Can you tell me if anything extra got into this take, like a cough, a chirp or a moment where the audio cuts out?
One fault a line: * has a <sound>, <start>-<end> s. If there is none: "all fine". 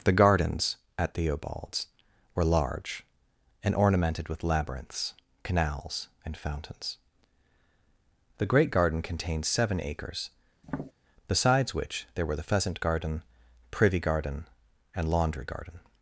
* has a tap, 10.6-10.9 s